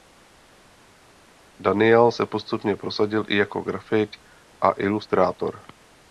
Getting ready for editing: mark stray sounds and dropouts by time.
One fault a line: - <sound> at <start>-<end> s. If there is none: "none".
none